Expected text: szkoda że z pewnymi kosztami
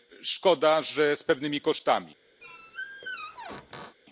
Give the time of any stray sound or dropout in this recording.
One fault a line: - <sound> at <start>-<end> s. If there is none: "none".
- squeak at 2.4-4.0 s